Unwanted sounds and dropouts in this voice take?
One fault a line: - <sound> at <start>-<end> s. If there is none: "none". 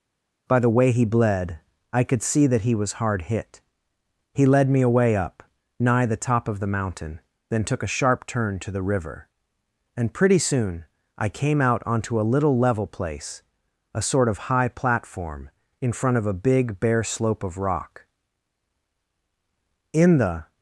none